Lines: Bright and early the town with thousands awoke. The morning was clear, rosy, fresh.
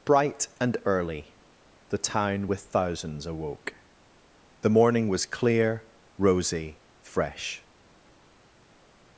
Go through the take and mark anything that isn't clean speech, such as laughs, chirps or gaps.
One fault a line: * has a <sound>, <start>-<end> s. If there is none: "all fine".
all fine